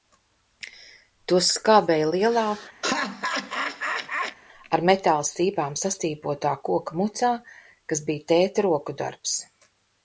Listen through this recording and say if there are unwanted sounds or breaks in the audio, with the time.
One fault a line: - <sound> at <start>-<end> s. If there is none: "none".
- laugh at 2.8-4.4 s